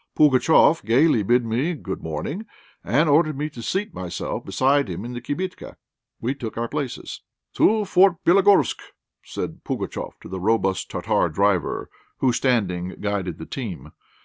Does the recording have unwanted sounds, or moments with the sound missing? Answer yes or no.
no